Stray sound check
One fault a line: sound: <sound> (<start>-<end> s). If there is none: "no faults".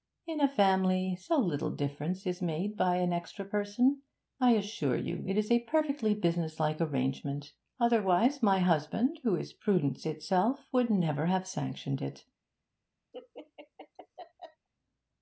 sound: laugh (13.1-14.7 s)